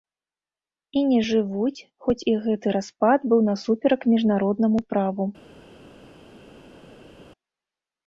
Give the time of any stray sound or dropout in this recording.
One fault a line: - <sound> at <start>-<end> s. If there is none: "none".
none